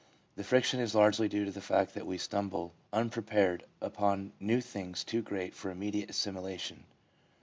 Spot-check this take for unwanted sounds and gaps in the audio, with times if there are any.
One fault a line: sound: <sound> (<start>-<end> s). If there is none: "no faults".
no faults